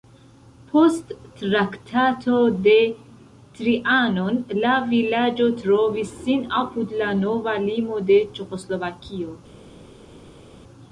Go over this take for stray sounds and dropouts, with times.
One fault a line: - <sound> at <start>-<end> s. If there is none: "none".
none